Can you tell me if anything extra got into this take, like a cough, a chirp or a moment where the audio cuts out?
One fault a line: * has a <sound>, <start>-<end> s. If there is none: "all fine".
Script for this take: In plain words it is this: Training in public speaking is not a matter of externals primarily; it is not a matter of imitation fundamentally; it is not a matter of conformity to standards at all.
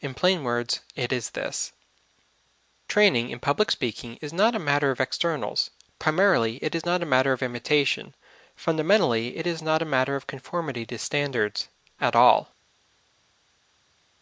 all fine